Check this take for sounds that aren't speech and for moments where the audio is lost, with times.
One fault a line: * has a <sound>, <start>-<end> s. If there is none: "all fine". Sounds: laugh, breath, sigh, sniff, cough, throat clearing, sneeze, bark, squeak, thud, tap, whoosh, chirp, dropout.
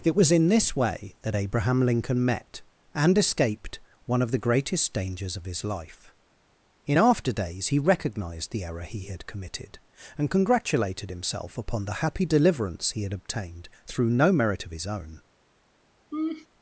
* has a laugh, 16.1-16.5 s